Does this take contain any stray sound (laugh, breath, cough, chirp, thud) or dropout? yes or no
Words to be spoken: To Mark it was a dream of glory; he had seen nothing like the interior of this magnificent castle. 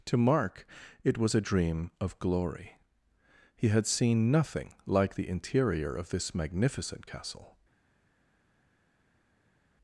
no